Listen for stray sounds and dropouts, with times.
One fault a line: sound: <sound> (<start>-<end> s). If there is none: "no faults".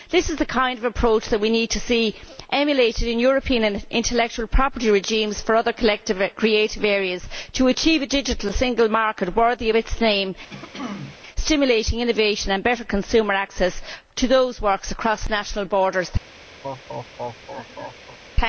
sound: throat clearing (10.5-11.2 s)
sound: laugh (16.6-18.2 s)